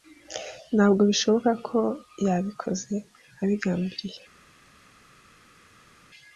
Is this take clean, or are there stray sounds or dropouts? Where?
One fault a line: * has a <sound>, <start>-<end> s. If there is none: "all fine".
all fine